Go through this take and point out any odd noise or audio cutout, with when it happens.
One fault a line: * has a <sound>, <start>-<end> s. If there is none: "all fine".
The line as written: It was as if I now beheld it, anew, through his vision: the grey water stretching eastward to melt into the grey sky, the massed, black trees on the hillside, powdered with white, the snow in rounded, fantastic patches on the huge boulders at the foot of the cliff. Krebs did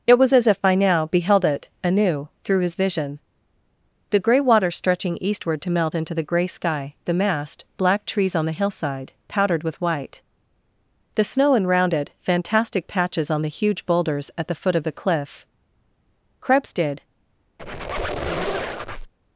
* has a squeak, 17.6-19.1 s